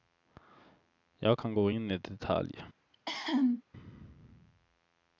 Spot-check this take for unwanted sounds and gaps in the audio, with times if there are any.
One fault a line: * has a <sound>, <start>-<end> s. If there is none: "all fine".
* has a cough, 2.9-3.6 s